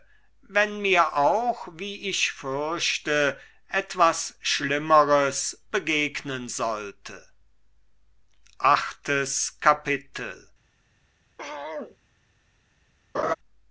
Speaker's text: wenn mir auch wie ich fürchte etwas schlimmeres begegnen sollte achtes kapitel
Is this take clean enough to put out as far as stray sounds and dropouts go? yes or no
no